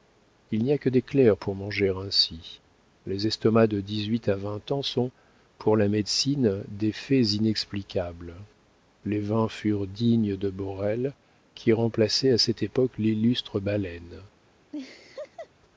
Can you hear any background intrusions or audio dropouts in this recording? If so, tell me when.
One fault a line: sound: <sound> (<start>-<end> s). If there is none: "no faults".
sound: laugh (14.7-15.5 s)